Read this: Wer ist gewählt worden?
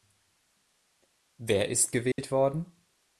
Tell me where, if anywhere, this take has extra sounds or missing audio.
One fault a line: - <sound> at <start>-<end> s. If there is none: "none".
- dropout at 2.1-2.2 s